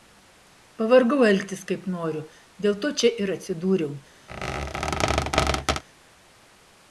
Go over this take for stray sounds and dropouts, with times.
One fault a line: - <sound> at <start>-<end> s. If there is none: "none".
- squeak at 4.3-5.8 s